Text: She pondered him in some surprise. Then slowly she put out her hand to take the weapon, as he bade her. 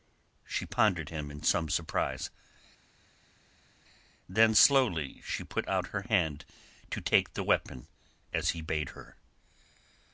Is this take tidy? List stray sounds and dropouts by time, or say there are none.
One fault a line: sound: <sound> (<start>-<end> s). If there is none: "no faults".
no faults